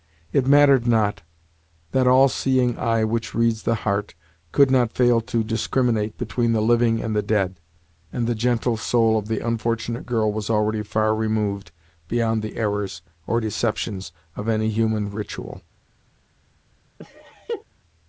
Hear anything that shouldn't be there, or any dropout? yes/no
yes